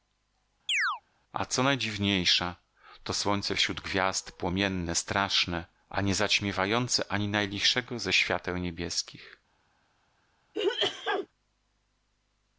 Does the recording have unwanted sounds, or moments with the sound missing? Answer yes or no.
yes